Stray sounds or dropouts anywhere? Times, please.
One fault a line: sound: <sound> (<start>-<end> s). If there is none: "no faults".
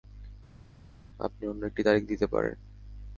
no faults